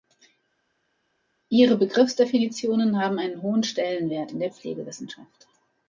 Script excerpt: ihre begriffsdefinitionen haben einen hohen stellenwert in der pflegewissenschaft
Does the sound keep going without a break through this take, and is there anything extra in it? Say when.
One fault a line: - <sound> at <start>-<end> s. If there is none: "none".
none